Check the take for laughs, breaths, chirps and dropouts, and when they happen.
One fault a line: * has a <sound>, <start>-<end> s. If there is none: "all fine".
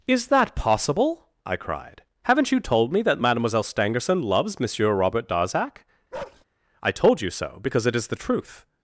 * has a bark, 6.1-6.4 s